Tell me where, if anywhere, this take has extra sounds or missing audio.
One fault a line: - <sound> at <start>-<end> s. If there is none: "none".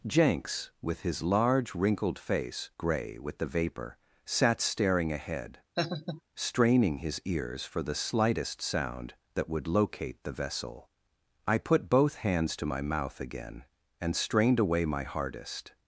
- laugh at 5.8-6.2 s